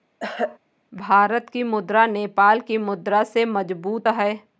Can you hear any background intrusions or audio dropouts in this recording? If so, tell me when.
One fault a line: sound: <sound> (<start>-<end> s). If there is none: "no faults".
sound: throat clearing (0.2-0.6 s)